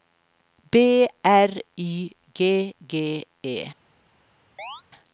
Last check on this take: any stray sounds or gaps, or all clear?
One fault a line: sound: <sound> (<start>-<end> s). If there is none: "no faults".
sound: chirp (4.6-4.8 s)